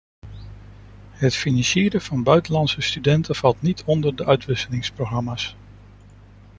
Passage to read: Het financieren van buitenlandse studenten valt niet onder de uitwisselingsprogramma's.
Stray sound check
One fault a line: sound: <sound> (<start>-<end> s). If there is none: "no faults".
no faults